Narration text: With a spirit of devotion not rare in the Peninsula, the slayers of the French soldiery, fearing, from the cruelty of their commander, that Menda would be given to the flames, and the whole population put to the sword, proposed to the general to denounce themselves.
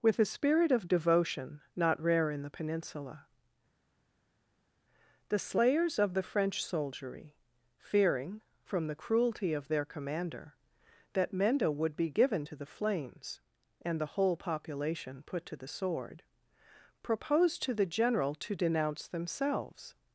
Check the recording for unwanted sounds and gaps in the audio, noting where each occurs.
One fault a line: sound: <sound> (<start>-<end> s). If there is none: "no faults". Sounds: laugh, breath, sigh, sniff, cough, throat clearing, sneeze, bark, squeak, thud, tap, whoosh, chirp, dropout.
no faults